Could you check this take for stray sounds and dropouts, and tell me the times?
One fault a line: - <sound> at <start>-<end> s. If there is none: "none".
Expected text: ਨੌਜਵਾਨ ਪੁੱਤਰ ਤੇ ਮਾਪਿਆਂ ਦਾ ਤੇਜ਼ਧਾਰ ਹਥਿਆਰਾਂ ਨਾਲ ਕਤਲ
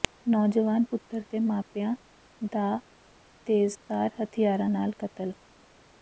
none